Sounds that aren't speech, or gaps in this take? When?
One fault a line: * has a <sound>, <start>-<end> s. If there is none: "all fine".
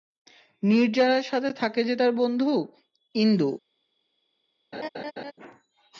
* has a laugh, 4.7-5.3 s